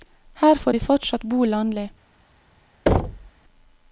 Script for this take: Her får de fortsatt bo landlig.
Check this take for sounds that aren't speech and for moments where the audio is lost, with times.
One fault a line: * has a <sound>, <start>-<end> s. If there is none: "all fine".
* has a thud, 2.9-3.3 s